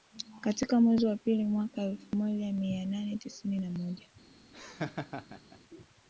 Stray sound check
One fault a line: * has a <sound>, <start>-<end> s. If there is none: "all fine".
* has a laugh, 4.5-5.6 s